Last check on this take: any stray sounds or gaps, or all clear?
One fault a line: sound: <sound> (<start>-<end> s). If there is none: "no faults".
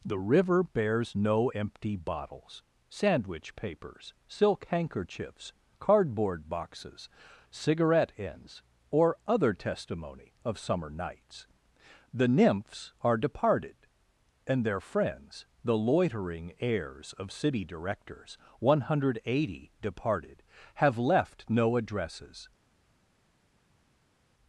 no faults